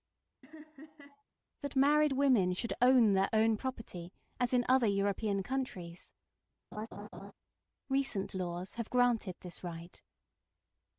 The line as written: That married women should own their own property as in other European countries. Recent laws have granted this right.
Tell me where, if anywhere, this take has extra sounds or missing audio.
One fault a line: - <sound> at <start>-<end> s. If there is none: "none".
- laugh at 0.4-1.2 s
- laugh at 6.7-7.3 s